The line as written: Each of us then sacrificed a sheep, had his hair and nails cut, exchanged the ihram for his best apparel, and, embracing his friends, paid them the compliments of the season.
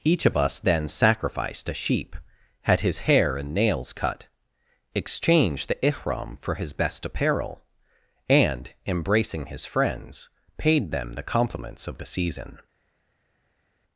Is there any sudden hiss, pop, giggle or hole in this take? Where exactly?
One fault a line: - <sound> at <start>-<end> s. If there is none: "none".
none